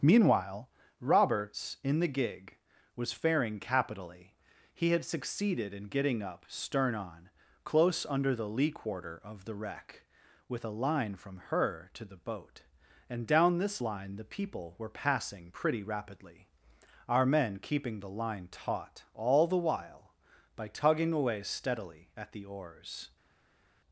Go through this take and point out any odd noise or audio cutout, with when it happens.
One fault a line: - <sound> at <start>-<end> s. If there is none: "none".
none